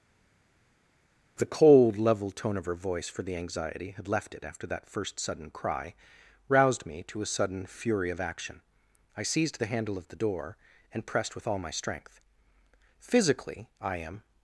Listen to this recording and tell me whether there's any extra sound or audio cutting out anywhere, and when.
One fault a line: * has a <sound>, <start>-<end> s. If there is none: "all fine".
all fine